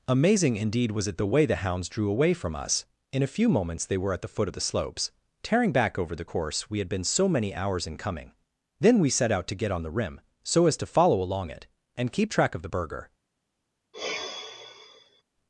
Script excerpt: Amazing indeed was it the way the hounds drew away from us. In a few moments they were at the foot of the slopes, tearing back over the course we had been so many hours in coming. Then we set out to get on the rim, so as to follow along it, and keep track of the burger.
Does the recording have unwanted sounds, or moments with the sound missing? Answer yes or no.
yes